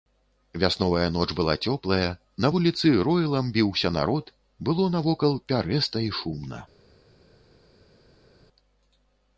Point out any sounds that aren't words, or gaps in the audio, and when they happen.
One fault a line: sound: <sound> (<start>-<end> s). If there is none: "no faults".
no faults